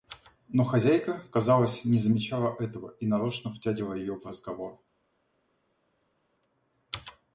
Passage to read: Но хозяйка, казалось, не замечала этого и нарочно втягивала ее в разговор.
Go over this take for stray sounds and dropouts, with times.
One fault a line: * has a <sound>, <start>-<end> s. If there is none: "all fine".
all fine